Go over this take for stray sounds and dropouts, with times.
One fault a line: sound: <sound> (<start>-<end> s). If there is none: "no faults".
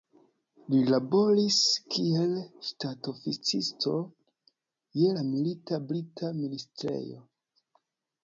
no faults